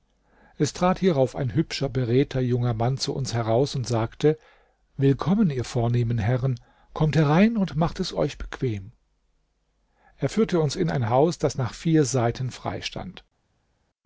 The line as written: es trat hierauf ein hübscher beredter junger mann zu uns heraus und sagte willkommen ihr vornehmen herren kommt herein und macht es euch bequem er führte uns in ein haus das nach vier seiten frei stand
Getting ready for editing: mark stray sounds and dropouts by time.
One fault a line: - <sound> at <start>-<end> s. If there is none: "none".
none